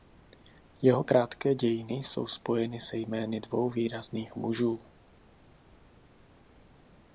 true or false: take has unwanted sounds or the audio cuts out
false